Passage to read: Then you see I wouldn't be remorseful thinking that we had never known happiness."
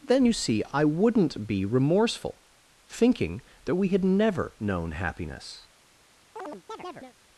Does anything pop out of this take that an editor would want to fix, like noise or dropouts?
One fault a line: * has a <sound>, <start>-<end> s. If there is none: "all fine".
* has a chirp, 6.4-7.2 s